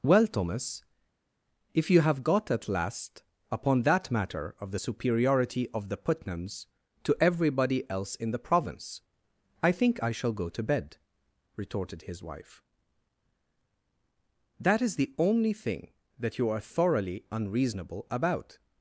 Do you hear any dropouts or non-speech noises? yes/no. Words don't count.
no